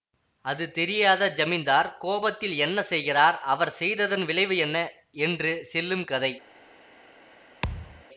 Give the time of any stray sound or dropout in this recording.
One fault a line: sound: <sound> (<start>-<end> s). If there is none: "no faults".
sound: thud (7.6-8.0 s)